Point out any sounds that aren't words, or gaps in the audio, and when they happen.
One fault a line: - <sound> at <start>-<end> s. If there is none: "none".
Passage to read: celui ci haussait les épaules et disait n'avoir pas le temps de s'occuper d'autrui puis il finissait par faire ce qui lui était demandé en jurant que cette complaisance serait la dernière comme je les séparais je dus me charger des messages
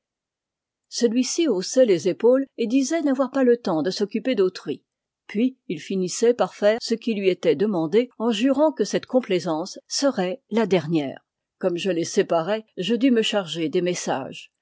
none